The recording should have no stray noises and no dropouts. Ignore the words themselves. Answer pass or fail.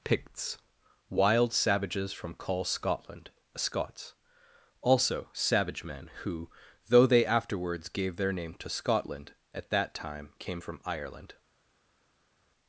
pass